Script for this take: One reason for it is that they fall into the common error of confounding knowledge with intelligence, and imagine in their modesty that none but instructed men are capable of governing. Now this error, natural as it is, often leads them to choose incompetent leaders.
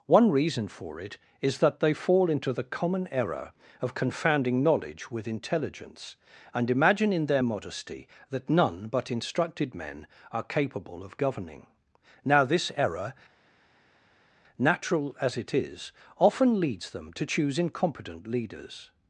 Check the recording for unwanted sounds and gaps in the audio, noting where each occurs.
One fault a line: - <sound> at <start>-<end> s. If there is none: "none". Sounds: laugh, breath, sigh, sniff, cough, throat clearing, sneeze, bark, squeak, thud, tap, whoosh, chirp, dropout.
none